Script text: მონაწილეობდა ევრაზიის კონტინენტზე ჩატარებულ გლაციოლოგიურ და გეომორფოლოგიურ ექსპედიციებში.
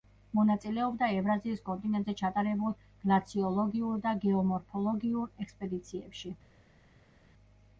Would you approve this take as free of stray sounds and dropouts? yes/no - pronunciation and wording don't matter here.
yes